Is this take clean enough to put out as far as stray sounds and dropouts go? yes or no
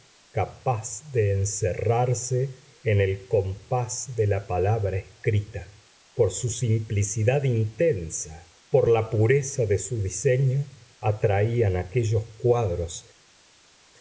yes